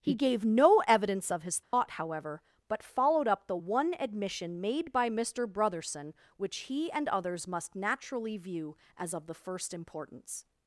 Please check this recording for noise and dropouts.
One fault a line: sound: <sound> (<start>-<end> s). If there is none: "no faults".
sound: dropout (1.6-1.7 s)